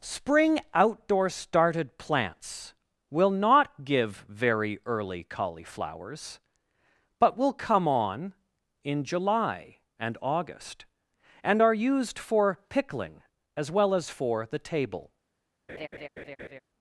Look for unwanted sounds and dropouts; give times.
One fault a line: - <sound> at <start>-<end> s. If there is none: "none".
- laugh at 15.7-16.6 s